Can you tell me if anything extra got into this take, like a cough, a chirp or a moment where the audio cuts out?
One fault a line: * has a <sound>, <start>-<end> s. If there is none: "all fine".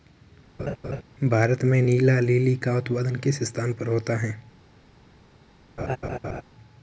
* has a laugh, 0.6-1.0 s
* has a laugh, 5.8-6.4 s